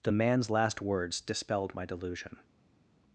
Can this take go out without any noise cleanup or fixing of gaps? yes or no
yes